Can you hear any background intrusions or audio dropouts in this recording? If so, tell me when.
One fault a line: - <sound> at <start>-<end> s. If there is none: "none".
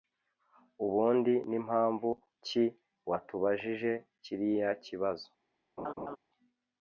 - laugh at 5.8-6.2 s